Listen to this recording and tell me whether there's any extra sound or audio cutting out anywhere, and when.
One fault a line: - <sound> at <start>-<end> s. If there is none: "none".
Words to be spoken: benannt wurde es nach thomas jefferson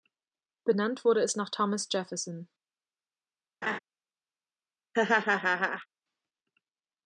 - laugh at 3.6-3.8 s
- laugh at 4.9-5.9 s